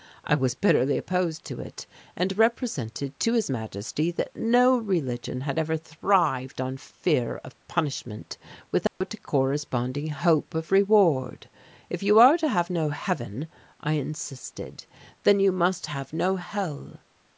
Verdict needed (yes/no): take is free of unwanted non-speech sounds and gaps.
no